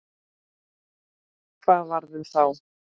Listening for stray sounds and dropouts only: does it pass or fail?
pass